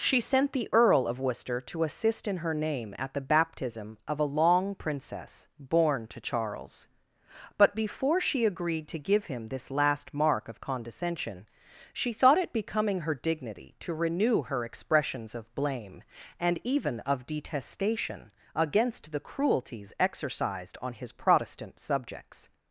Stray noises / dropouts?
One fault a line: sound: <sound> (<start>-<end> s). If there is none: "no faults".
no faults